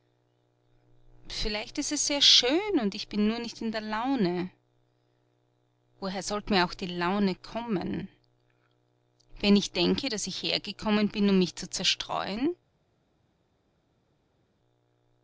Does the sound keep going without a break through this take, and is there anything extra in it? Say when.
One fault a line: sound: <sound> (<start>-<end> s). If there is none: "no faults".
no faults